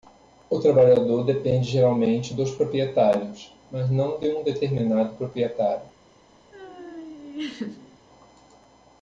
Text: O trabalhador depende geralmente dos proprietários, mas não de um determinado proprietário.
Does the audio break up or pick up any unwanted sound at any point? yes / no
yes